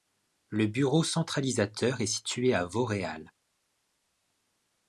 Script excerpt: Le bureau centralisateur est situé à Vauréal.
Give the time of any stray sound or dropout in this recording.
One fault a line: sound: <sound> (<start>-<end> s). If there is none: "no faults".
no faults